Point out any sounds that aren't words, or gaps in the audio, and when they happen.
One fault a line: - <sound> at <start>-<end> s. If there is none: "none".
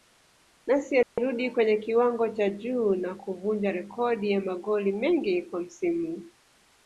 - dropout at 1.0-1.2 s